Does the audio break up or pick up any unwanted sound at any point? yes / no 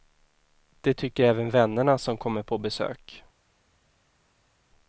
no